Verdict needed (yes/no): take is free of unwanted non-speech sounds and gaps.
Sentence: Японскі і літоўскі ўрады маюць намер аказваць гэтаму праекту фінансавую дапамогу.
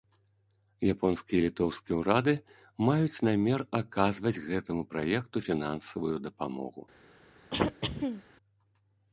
no